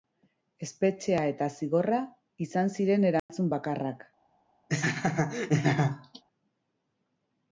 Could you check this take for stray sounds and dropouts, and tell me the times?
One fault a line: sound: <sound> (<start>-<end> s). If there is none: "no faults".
sound: dropout (3.2-3.3 s)
sound: laugh (4.7-6.2 s)